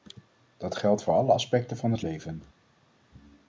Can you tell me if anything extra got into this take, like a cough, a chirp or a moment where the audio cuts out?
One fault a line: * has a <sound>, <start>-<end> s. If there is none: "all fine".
all fine